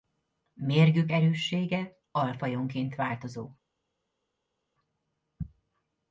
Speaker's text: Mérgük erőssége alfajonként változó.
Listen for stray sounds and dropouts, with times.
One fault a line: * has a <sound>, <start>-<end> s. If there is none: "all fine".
all fine